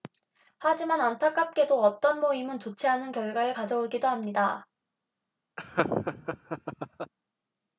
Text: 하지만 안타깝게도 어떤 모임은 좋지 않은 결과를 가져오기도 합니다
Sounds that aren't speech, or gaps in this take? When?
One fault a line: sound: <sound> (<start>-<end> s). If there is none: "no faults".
sound: laugh (5.6-7.1 s)